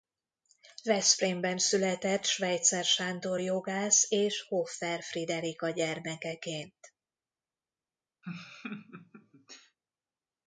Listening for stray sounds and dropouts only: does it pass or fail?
fail